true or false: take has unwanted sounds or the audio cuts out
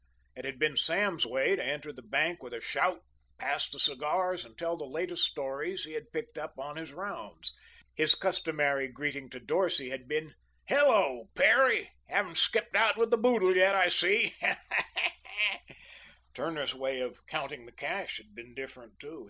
false